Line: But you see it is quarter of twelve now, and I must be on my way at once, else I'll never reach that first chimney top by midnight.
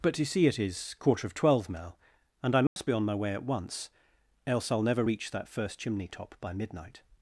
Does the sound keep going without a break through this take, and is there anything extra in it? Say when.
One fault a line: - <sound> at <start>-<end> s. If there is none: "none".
- dropout at 2.7-2.8 s